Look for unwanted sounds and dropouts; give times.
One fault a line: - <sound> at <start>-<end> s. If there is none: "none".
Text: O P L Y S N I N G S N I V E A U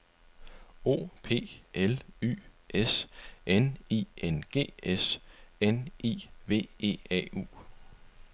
none